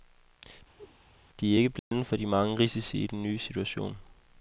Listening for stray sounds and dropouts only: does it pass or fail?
fail